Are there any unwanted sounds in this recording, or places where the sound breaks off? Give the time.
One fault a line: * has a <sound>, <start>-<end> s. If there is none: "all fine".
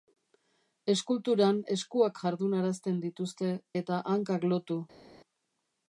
all fine